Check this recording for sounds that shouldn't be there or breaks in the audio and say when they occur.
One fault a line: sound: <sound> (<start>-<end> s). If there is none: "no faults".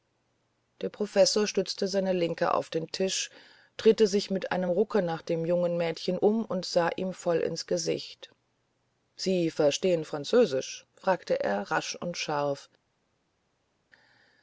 no faults